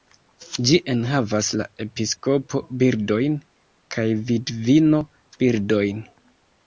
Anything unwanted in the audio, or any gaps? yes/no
no